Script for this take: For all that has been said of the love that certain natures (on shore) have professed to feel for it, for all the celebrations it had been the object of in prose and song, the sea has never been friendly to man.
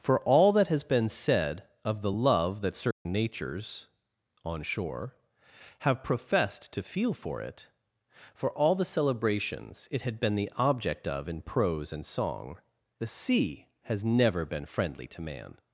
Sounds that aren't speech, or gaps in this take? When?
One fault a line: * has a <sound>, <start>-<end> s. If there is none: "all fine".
* has a dropout, 2.9-3.1 s